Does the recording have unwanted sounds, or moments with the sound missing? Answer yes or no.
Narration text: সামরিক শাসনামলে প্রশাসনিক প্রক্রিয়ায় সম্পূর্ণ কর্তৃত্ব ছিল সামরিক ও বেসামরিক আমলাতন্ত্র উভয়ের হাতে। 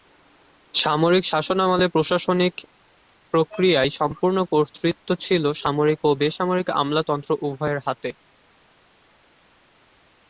no